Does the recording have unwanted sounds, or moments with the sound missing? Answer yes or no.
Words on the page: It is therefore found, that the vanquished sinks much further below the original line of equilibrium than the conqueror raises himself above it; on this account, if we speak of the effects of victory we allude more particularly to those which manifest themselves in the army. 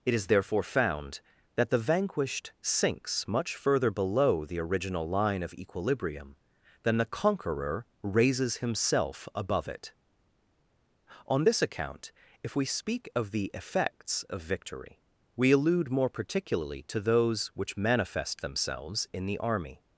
no